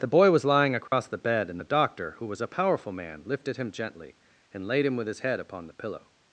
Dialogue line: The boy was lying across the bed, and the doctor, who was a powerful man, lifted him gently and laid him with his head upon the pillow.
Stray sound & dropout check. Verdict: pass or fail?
fail